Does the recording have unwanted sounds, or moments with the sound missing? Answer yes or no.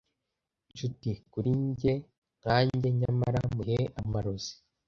yes